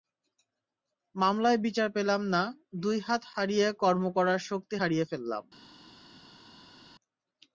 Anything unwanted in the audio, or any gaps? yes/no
no